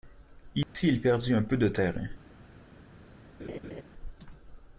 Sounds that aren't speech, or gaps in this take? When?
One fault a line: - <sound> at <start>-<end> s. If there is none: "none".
- dropout at 0.6-0.7 s
- laugh at 3.4-3.8 s